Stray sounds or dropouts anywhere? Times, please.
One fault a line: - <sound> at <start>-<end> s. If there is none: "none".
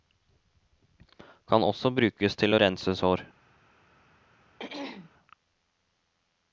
- throat clearing at 4.6-5.1 s